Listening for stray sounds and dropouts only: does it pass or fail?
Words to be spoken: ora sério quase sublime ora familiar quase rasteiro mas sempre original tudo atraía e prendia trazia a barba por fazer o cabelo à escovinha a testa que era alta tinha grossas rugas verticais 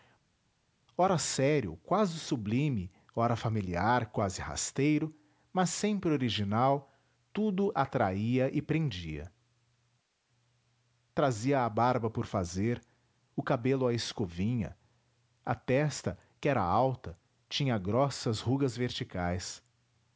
pass